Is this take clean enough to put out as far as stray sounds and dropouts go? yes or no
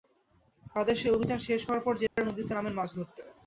no